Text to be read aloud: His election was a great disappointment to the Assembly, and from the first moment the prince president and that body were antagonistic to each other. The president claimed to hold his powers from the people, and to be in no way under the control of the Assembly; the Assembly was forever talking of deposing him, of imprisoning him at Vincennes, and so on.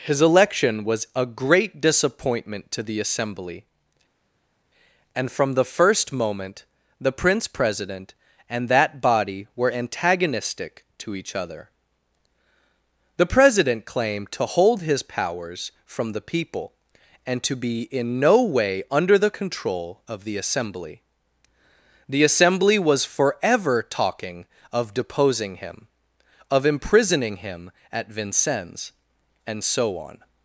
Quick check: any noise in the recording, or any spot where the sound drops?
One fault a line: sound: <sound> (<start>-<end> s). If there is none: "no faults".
no faults